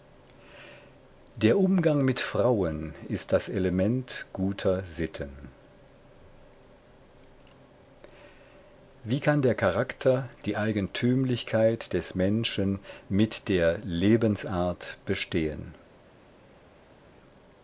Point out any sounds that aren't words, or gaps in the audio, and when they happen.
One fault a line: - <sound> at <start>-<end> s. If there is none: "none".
none